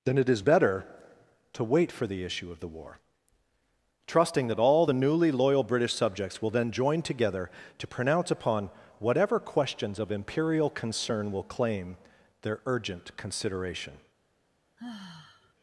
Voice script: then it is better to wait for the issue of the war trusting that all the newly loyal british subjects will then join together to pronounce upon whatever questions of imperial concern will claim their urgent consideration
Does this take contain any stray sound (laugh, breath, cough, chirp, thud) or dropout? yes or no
yes